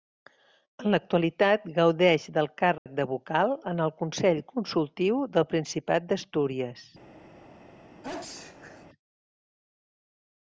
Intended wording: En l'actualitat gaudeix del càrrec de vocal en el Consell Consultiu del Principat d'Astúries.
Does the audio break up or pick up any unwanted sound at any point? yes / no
yes